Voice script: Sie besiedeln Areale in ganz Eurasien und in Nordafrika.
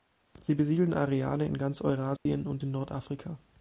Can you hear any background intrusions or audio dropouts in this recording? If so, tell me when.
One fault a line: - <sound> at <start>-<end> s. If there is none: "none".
- dropout at 2.2-2.3 s